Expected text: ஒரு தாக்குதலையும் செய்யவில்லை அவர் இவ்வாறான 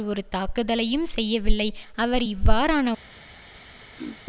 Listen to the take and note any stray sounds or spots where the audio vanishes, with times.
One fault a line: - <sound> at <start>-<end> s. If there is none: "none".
- throat clearing at 4.0-4.2 s